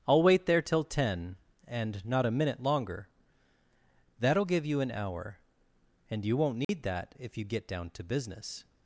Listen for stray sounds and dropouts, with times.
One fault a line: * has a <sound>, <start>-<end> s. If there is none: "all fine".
* has a dropout, 6.6-6.7 s